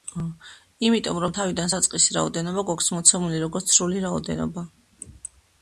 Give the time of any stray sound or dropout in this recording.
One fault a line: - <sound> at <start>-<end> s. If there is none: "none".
none